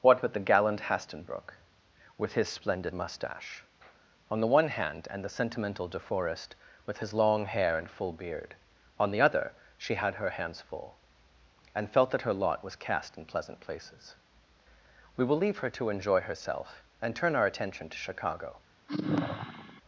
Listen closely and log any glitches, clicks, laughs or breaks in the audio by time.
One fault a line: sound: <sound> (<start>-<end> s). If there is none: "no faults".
sound: sigh (18.9-19.8 s)